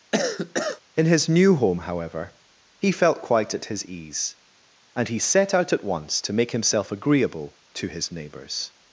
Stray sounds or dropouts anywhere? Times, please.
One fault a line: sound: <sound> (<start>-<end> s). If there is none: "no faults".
sound: cough (0.1-0.8 s)